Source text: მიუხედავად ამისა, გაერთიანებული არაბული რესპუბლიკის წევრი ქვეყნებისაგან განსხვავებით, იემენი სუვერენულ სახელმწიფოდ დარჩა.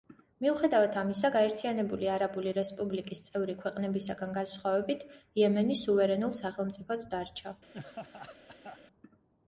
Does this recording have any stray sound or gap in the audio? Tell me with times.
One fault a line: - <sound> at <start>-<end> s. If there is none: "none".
- laugh at 7.7-8.8 s